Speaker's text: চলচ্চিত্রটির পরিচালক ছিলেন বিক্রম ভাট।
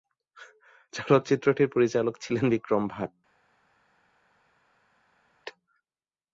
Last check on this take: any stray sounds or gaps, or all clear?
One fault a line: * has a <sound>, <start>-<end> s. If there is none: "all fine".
all fine